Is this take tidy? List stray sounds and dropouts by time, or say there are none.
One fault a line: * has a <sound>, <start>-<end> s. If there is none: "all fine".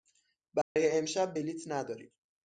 * has a dropout, 0.6-0.8 s